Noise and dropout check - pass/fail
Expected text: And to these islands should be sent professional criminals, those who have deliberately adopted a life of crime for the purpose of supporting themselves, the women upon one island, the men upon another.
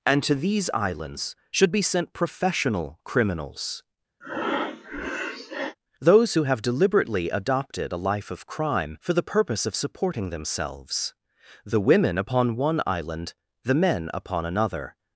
fail